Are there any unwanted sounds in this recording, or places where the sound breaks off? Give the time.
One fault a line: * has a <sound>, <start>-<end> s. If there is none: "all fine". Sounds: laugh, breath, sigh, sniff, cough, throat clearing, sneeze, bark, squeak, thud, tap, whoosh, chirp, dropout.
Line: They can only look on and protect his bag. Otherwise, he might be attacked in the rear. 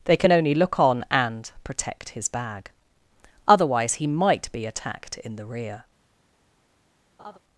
* has a laugh, 7.2-7.4 s